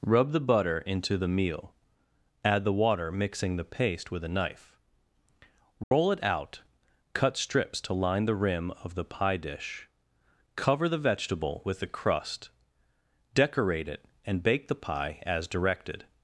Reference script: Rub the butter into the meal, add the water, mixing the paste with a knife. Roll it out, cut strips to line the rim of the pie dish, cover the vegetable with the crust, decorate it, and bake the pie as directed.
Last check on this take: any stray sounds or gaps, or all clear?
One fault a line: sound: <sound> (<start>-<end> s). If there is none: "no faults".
sound: dropout (5.8-5.9 s)